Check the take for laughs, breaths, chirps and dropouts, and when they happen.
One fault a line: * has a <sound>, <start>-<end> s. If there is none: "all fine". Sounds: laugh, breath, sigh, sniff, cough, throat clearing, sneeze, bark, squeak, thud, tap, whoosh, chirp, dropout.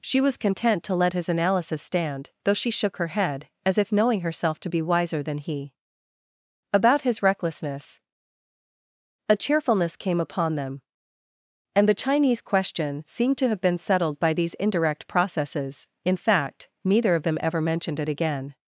all fine